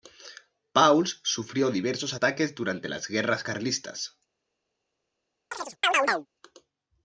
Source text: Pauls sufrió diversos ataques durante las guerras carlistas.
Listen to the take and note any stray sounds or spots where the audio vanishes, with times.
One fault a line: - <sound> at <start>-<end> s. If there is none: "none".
- chirp at 5.5-6.3 s